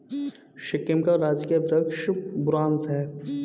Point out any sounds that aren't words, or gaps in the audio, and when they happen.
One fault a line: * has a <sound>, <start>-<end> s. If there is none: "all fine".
all fine